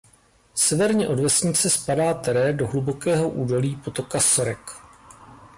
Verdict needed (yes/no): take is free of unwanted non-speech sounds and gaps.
yes